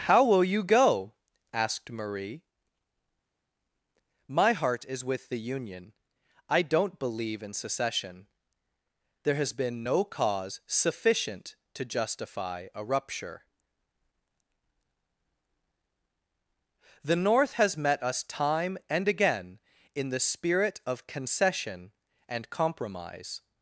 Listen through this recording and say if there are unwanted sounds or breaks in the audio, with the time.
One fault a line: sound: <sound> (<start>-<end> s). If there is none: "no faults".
no faults